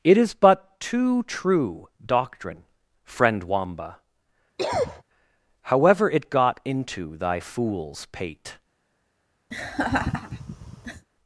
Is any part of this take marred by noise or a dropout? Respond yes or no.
yes